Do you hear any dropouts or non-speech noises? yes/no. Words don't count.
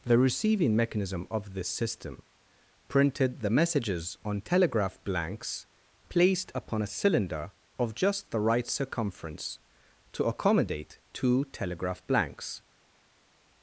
no